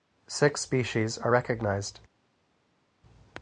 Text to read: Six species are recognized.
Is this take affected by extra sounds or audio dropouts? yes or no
no